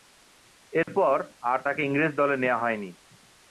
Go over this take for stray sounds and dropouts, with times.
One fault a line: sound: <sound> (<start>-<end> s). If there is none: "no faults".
sound: dropout (0.8-0.9 s)